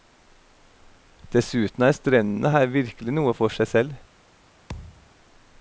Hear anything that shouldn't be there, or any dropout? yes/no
yes